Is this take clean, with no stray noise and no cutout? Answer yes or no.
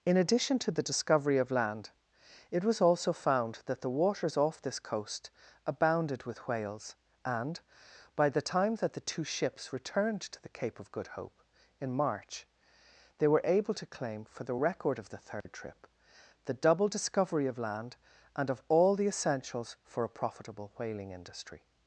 no